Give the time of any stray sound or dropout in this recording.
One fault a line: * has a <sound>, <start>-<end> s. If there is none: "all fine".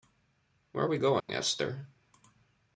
* has a dropout, 1.2-1.3 s